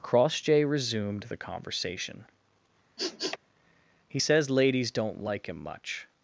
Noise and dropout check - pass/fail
fail